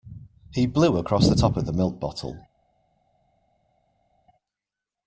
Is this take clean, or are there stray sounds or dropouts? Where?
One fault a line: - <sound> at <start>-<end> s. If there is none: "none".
none